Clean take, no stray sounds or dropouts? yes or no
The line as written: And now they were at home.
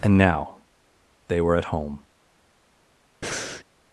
no